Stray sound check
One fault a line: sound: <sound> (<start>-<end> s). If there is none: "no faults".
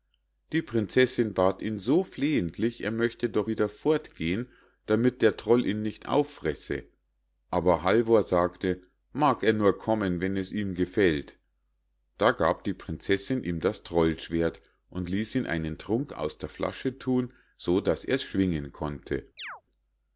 sound: chirp (19.4-19.6 s)